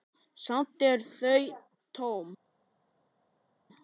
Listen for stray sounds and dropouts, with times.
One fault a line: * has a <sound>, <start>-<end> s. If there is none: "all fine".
all fine